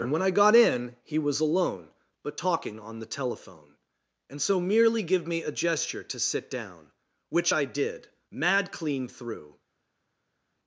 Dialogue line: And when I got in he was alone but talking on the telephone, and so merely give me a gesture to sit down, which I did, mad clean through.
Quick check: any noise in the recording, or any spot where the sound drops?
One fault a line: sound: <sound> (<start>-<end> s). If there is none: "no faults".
no faults